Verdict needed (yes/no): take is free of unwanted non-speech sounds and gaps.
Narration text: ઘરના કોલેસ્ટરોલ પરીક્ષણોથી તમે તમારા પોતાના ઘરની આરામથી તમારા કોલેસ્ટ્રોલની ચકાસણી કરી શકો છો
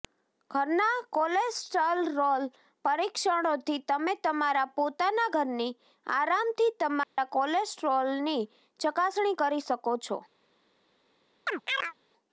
no